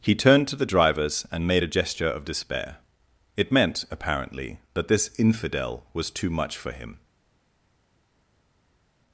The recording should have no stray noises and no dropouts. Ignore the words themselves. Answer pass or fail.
pass